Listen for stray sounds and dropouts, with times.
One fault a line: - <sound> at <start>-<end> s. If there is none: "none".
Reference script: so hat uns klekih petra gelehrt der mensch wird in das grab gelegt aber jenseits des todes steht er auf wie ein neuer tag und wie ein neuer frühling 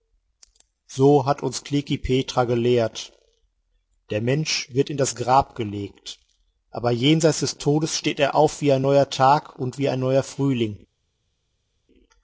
none